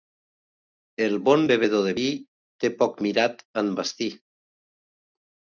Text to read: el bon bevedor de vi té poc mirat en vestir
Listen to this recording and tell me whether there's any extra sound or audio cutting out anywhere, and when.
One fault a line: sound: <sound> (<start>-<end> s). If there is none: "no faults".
no faults